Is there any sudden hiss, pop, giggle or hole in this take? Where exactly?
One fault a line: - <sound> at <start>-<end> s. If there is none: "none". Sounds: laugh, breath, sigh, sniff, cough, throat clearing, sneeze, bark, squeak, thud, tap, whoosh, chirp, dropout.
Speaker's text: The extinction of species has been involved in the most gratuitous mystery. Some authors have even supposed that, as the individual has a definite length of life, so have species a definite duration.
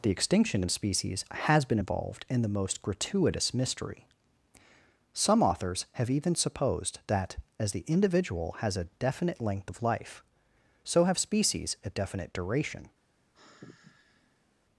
- sigh at 13.3-14.5 s